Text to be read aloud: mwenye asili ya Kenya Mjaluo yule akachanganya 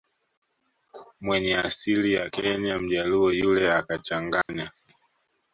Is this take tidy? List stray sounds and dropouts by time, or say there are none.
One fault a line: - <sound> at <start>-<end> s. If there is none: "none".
- dropout at 4.4-4.5 s